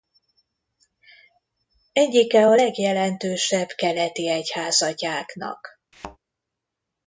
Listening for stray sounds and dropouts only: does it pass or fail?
fail